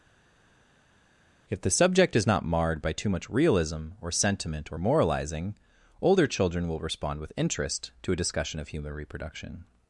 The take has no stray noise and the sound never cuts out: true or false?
true